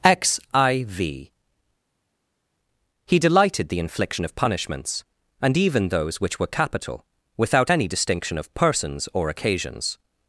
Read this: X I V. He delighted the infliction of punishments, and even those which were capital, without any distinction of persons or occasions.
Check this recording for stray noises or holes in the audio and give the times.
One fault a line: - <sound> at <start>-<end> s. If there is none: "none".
none